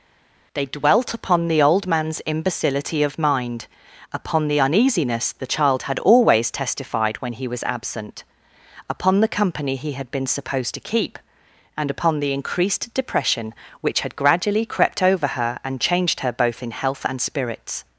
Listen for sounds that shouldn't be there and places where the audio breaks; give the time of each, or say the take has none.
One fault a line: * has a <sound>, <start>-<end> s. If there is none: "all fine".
all fine